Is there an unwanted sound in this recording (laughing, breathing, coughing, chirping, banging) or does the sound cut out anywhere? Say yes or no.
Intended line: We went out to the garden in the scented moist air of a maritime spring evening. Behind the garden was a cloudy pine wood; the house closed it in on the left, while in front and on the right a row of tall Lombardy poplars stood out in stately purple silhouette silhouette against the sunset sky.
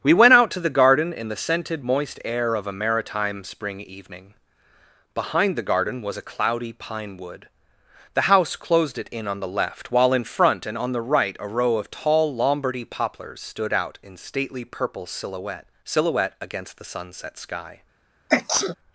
yes